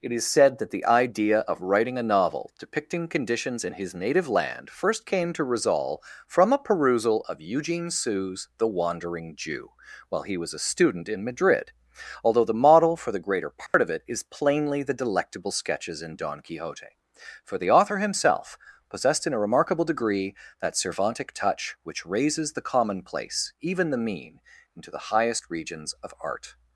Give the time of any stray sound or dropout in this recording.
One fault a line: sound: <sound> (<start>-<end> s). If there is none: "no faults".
sound: dropout (13.7-13.7 s)